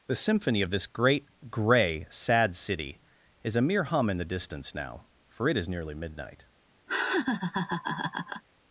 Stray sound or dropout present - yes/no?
yes